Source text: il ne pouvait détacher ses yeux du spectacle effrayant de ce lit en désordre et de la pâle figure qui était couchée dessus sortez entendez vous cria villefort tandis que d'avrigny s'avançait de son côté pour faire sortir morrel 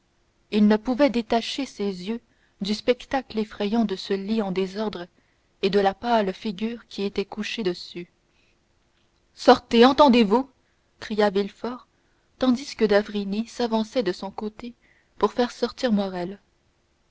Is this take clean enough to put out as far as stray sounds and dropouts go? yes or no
yes